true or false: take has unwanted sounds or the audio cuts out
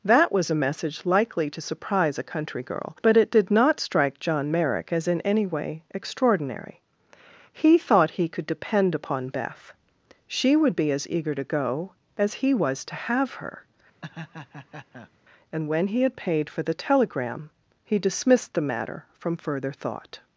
true